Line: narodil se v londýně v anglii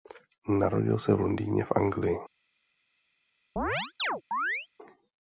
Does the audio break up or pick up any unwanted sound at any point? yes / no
yes